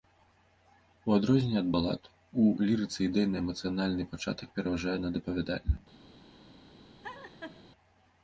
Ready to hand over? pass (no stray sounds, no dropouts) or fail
fail